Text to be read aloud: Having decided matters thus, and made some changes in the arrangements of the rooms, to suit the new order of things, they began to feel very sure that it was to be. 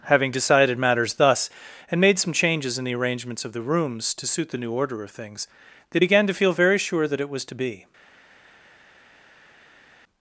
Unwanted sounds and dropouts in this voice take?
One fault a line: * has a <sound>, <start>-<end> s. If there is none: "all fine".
all fine